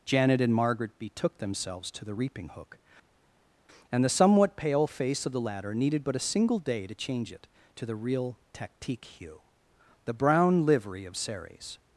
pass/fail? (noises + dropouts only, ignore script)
pass